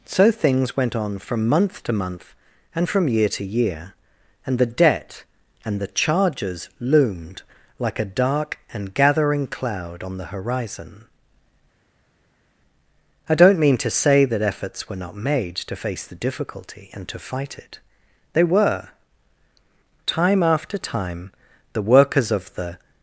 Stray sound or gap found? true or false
false